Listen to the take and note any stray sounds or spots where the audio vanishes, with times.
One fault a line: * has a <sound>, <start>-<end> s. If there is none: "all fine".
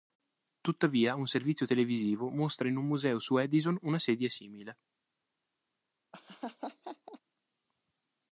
* has a laugh, 6.1-7.2 s